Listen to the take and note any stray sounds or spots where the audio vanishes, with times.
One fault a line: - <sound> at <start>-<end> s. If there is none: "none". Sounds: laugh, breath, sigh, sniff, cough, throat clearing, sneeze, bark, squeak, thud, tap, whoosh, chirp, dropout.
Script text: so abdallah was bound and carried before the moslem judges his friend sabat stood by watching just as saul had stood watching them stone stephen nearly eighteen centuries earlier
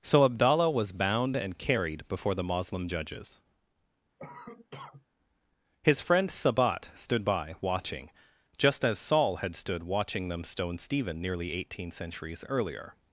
- cough at 4.2-5.0 s